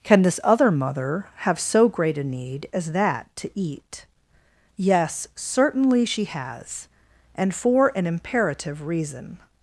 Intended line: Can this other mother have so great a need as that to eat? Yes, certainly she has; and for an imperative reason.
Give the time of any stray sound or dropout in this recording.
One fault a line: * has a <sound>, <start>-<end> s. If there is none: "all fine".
all fine